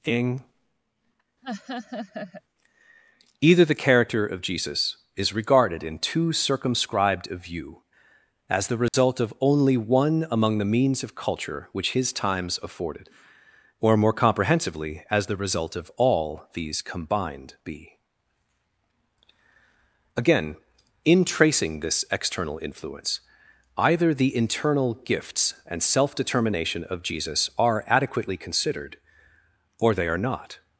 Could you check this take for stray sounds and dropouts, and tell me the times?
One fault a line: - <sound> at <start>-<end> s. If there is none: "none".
- laugh at 1.4-2.4 s
- dropout at 8.9-8.9 s